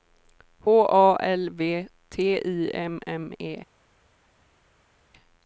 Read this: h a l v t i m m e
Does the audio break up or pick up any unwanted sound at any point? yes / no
no